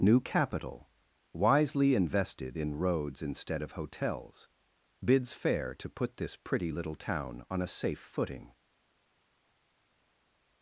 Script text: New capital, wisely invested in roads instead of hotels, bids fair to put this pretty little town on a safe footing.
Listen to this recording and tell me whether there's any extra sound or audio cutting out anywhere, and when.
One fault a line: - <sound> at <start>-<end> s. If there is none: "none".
none